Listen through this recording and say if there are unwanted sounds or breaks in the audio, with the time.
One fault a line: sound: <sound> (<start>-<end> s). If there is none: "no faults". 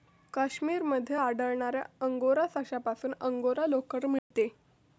sound: dropout (4.2-4.3 s)